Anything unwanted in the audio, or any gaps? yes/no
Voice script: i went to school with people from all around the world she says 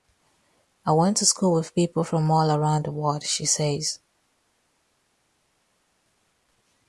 no